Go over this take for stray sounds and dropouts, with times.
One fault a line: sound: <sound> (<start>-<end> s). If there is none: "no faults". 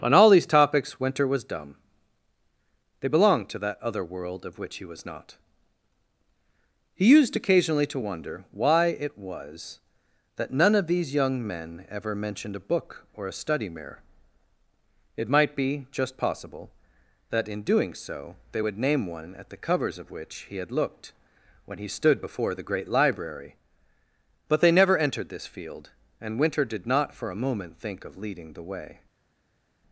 no faults